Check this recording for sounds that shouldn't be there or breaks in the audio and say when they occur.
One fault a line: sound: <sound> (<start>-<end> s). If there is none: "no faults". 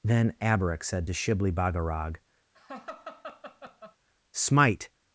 sound: laugh (2.5-4.0 s)